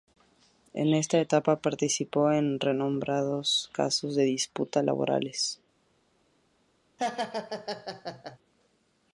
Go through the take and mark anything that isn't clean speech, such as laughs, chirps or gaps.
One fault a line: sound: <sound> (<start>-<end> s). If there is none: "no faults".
sound: laugh (7.0-8.4 s)